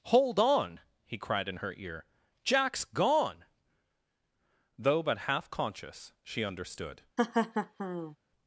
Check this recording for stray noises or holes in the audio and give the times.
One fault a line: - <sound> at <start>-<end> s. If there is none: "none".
- laugh at 7.2-8.2 s